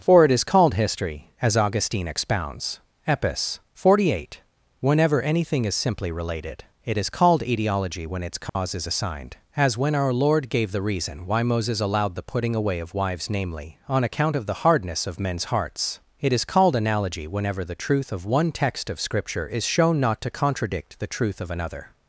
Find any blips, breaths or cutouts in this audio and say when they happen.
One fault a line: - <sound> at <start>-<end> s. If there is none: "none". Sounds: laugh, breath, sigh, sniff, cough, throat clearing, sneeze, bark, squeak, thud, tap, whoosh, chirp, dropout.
- dropout at 8.5-8.6 s